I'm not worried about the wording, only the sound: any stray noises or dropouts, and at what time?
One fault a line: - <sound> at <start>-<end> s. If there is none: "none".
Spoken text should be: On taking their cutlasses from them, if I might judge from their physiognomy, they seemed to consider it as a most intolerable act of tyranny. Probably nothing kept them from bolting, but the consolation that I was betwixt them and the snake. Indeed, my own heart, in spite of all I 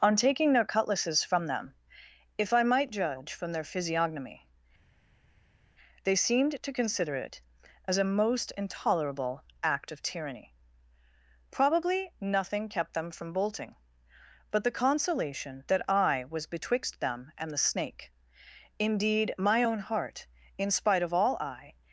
none